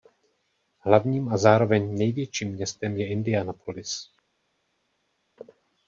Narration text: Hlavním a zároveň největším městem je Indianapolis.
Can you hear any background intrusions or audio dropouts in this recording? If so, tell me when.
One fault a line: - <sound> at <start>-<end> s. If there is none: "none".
none